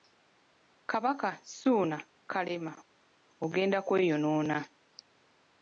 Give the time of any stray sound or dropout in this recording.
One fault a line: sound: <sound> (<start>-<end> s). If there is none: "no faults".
no faults